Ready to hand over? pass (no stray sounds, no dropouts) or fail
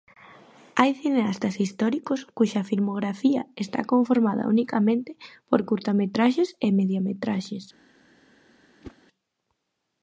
fail